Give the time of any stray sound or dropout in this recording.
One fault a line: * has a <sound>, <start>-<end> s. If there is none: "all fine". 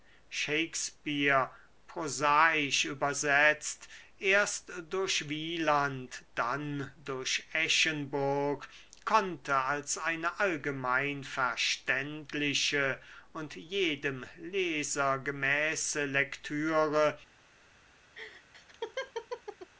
* has a laugh, 18.1-19.7 s